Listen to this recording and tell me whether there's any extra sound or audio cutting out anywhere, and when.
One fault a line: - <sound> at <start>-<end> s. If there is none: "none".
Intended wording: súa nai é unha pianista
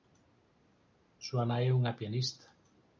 none